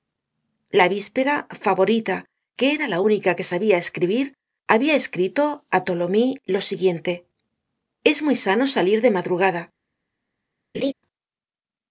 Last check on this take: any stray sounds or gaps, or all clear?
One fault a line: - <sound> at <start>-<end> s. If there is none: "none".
- laugh at 10.7-10.9 s